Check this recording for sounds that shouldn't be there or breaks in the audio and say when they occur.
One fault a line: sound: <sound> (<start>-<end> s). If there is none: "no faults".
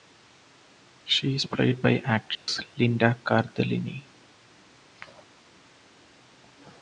sound: dropout (2.4-2.5 s)